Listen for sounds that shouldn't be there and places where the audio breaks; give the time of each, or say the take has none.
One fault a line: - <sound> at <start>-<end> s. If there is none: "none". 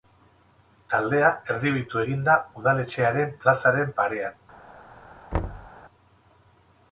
- thud at 5.3-5.7 s